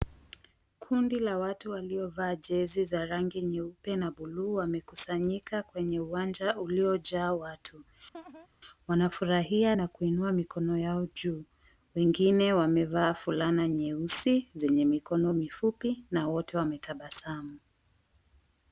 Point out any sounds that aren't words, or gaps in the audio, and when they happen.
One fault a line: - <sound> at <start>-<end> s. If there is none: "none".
- laugh at 8.1-8.5 s